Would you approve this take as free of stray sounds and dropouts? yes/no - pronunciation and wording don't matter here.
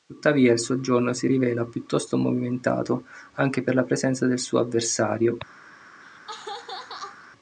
no